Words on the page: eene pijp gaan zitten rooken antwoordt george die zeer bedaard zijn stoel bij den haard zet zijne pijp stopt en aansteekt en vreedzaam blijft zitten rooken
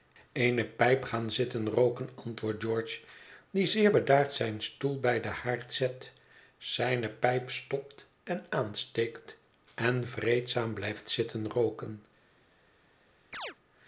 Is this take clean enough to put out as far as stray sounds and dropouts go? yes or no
no